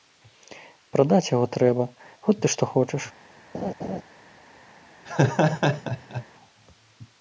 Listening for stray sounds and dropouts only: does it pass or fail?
fail